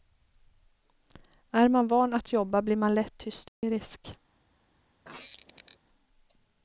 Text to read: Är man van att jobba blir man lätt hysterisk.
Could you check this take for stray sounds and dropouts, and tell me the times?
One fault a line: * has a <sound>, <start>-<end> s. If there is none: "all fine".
* has a dropout, 3.5-3.6 s
* has a squeak, 5.0-5.8 s